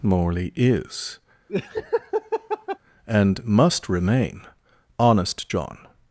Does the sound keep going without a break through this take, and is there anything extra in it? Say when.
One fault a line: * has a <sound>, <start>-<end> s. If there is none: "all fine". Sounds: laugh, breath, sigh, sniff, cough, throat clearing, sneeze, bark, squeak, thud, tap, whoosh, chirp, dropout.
* has a laugh, 1.5-2.8 s